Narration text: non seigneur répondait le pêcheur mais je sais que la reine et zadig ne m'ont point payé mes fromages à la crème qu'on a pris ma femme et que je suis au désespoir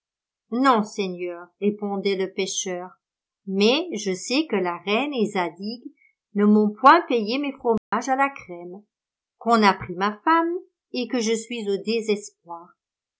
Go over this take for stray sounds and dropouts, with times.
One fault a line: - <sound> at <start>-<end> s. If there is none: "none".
- dropout at 7.8-7.9 s